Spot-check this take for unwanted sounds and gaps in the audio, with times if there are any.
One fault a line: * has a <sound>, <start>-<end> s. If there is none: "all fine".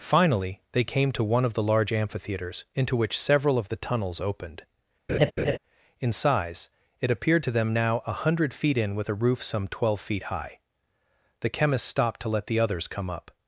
* has a laugh, 5.1-5.6 s